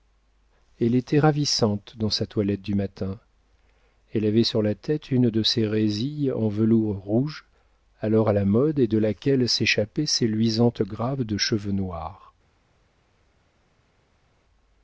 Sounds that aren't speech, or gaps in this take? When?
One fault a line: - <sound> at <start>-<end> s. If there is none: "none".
none